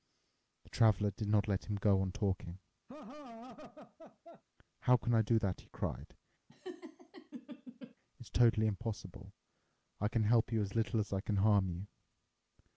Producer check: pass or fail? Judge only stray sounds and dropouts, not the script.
fail